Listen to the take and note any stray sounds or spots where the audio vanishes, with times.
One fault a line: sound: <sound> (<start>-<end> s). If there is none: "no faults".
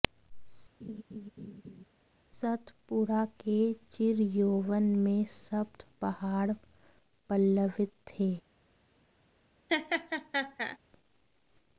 sound: laugh (0.8-1.8 s)
sound: laugh (9.7-10.8 s)